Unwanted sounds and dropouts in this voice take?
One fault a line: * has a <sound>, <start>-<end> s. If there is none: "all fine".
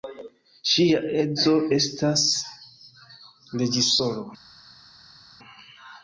all fine